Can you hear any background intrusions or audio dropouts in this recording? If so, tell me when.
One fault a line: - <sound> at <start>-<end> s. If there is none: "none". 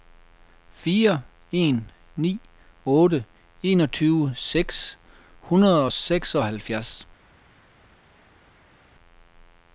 none